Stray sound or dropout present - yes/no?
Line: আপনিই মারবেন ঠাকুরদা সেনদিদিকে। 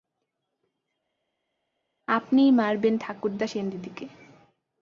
no